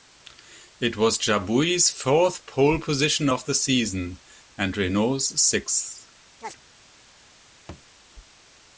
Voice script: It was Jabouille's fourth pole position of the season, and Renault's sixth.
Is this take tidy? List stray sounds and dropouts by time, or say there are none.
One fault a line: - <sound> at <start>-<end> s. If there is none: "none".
- chirp at 6.4-6.6 s
- thud at 7.7-7.9 s